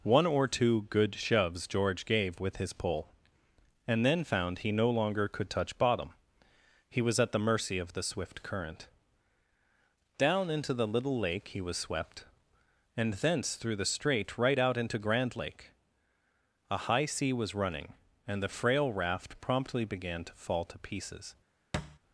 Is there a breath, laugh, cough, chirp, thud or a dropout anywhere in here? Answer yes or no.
yes